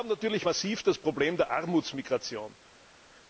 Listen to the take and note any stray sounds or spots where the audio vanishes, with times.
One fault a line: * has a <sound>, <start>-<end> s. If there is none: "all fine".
all fine